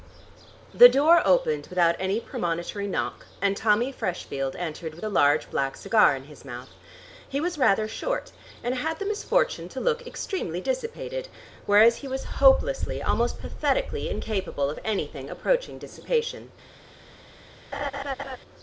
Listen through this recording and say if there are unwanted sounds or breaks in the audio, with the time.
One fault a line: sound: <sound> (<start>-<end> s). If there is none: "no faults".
sound: laugh (17.7-18.4 s)